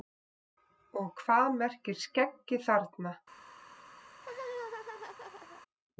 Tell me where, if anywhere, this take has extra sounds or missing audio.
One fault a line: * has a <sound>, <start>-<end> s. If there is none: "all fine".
* has a laugh, 4.1-5.6 s